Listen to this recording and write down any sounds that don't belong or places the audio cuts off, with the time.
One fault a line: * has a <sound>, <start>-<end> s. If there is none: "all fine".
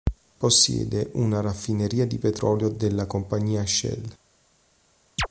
* has a chirp, 5.2-5.3 s